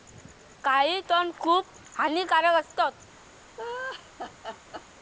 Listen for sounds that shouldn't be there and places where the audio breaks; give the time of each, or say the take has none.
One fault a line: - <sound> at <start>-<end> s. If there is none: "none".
- laugh at 3.6-4.9 s